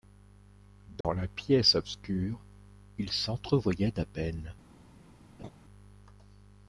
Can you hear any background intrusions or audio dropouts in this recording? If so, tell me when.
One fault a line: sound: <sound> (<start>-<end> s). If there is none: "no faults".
sound: dropout (1.0-1.0 s)
sound: laugh (5.4-5.5 s)